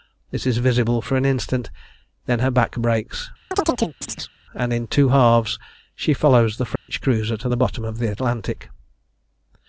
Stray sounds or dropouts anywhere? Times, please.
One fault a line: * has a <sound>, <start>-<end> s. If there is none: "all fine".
* has a chirp, 3.5-4.3 s
* has a dropout, 6.8-6.9 s